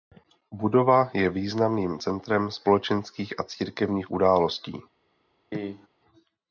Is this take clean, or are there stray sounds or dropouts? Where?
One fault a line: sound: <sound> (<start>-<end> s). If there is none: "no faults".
sound: cough (5.5-5.9 s)